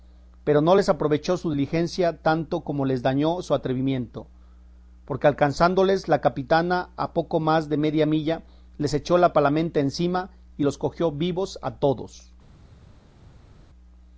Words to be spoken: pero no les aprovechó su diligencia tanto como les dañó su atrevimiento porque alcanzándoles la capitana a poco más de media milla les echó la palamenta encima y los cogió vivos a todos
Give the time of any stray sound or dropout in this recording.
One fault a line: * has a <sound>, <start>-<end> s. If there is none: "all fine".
all fine